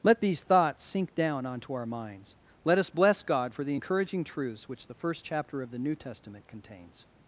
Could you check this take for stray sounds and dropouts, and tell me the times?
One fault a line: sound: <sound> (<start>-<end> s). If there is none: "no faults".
no faults